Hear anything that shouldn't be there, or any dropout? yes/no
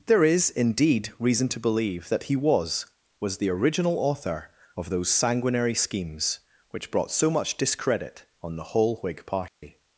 yes